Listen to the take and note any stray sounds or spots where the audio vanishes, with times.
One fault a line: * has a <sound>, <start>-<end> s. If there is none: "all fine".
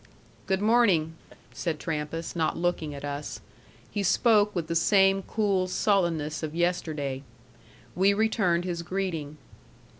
* has a laugh, 1.3-1.4 s